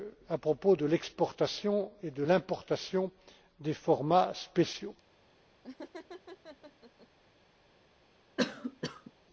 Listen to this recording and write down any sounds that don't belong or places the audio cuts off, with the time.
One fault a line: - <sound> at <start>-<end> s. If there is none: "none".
- laugh at 5.6-7.1 s
- cough at 8.4-9.1 s